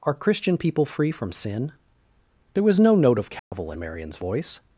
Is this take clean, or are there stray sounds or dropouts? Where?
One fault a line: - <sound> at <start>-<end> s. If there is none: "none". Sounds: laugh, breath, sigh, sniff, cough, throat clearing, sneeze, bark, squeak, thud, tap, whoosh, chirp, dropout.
- dropout at 3.4-3.5 s